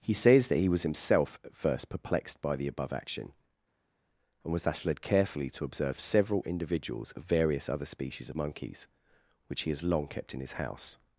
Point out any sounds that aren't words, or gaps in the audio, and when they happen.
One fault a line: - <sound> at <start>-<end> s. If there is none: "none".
none